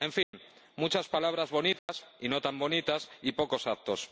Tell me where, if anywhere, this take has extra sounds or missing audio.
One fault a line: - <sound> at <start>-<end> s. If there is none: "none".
- dropout at 0.2-0.3 s
- dropout at 1.8-1.9 s